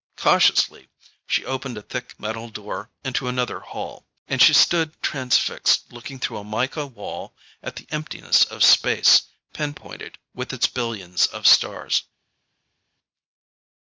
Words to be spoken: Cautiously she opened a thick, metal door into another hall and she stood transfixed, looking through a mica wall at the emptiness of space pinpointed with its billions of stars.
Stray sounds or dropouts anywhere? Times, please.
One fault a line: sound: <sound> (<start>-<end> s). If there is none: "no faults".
no faults